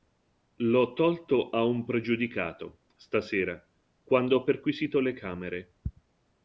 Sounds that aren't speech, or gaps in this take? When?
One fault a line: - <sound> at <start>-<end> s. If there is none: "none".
none